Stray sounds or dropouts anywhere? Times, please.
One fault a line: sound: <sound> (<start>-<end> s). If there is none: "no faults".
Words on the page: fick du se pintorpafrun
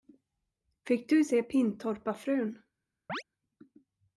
sound: chirp (3.1-3.2 s)